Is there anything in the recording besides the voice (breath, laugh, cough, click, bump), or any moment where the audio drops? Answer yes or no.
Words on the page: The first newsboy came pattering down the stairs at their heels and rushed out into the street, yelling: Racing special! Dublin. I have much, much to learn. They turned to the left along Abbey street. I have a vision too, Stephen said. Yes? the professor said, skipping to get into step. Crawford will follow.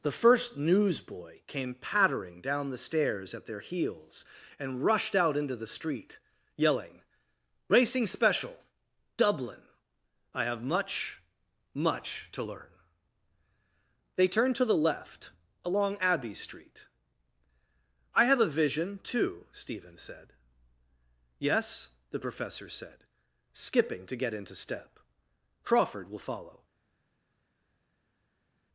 no